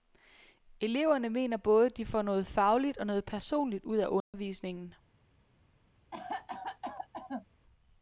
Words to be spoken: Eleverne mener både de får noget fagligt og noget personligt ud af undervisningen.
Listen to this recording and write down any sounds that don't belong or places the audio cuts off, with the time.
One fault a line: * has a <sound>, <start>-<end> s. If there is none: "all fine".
* has a dropout, 4.2-4.3 s
* has a cough, 6.1-7.5 s